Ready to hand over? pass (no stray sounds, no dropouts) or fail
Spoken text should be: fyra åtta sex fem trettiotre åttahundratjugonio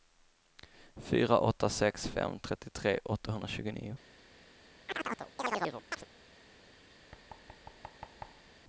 fail